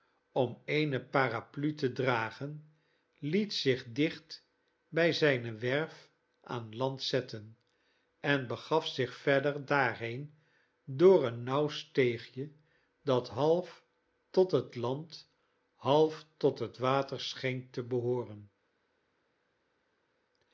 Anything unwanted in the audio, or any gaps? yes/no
no